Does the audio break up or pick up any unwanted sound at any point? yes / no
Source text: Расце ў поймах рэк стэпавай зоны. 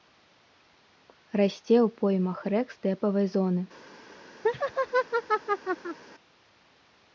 yes